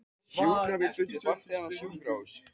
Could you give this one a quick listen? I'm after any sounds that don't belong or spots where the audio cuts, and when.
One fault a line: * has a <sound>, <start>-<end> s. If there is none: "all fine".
all fine